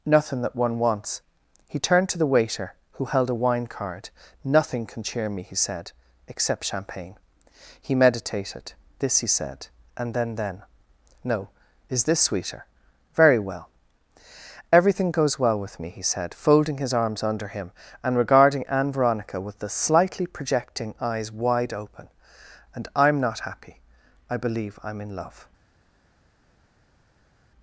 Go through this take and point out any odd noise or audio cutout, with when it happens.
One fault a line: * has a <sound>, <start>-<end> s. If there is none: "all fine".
all fine